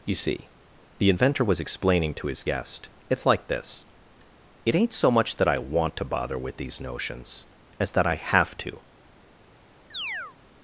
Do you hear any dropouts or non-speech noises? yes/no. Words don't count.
yes